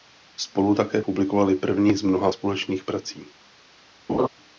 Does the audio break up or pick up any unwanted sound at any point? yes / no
yes